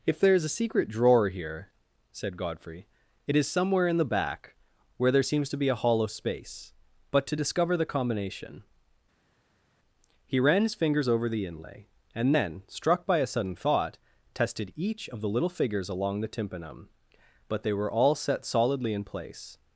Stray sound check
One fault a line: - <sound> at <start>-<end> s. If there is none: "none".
none